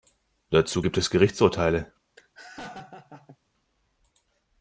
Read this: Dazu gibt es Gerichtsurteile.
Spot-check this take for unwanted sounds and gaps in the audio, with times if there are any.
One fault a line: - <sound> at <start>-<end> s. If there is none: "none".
- laugh at 2.2-3.4 s